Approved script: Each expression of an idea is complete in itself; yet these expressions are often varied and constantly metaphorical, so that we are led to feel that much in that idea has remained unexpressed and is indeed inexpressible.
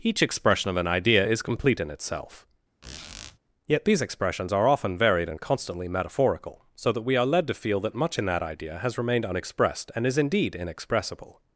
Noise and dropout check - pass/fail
fail